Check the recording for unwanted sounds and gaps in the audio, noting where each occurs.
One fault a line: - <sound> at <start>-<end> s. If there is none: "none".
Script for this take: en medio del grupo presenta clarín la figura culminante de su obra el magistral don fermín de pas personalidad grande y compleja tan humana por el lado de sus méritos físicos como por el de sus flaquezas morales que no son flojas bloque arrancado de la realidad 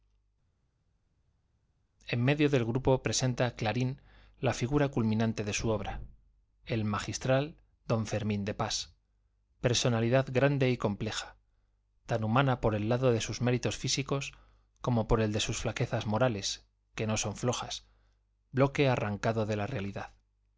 none